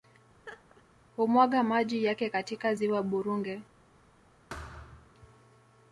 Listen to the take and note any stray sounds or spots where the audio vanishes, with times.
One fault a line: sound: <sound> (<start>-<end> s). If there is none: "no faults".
sound: laugh (0.4-0.8 s)
sound: thud (4.5-5.1 s)